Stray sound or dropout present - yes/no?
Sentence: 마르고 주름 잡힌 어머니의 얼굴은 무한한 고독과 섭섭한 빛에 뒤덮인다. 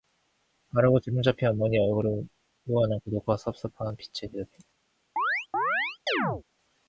yes